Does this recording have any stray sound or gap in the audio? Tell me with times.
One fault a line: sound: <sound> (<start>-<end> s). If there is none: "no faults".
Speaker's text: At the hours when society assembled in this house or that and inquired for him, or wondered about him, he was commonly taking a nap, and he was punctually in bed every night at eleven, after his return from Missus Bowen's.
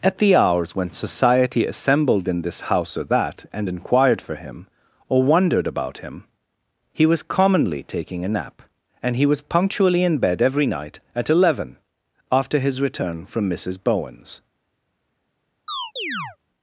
sound: chirp (15.7-16.4 s)